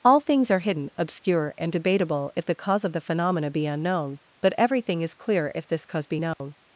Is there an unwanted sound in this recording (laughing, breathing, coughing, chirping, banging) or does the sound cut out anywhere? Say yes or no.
yes